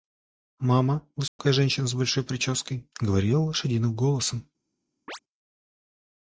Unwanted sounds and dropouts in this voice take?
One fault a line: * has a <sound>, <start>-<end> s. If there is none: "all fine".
* has a dropout, 1.3-1.4 s
* has a chirp, 5.1-5.2 s